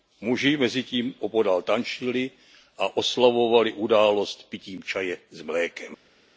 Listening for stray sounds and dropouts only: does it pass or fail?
pass